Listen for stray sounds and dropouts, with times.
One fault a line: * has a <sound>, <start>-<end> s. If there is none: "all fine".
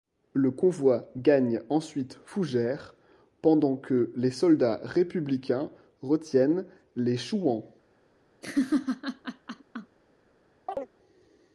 * has a laugh, 8.4-10.0 s
* has a chirp, 10.7-10.9 s